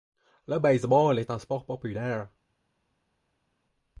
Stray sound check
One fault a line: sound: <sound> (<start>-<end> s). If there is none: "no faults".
no faults